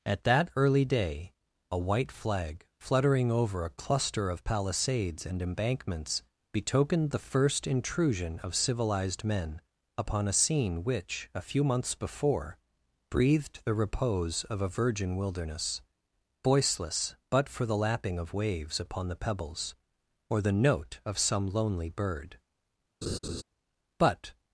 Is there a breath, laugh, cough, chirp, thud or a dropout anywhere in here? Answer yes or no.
yes